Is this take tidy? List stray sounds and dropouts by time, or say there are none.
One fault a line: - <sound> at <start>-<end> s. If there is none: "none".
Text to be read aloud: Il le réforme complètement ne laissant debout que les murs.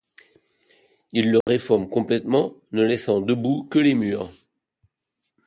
- dropout at 1.4-1.5 s